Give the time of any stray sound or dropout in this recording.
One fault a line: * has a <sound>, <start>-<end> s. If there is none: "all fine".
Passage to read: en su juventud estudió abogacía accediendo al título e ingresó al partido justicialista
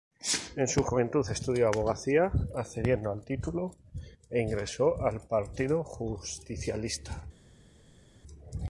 all fine